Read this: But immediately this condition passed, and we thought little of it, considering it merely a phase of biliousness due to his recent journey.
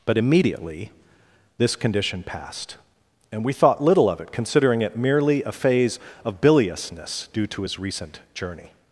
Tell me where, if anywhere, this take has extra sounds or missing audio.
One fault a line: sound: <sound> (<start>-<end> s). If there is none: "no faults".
no faults